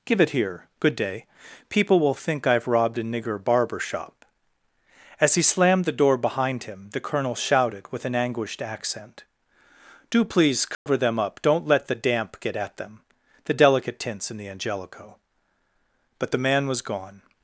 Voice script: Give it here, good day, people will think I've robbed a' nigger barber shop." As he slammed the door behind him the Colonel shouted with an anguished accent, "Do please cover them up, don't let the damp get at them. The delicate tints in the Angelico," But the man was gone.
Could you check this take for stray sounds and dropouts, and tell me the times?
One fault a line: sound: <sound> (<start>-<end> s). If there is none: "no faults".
sound: dropout (10.7-10.9 s)